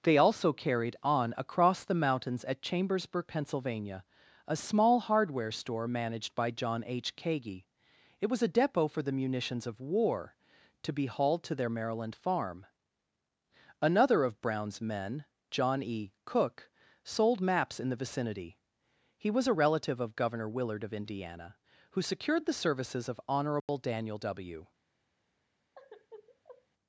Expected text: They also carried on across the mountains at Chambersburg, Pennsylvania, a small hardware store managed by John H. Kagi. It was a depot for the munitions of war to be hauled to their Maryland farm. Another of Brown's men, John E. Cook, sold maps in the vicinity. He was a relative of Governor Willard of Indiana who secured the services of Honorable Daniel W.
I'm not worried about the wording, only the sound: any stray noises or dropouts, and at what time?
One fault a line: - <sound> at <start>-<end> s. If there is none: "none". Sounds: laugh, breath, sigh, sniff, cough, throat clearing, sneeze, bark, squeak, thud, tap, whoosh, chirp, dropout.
- dropout at 23.6-23.7 s
- sigh at 25.7-26.7 s